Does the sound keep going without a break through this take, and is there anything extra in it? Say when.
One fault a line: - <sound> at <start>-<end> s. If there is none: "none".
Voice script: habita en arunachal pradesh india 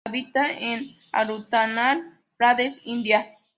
none